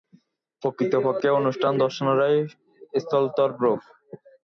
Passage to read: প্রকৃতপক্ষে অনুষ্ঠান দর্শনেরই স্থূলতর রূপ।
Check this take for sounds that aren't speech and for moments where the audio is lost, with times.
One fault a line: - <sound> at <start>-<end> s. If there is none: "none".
none